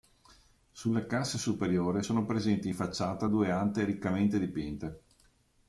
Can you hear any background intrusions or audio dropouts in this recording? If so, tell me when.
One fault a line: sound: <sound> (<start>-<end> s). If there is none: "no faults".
no faults